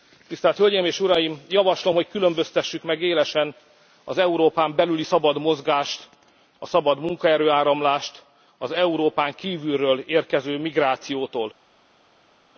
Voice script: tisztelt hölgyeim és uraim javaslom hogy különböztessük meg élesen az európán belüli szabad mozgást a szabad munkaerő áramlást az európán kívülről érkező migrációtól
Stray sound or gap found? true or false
false